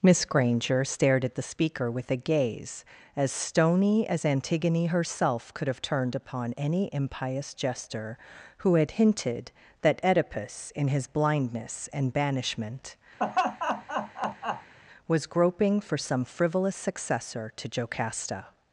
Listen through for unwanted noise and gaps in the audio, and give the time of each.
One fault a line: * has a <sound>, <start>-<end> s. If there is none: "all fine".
* has a laugh, 13.2-14.7 s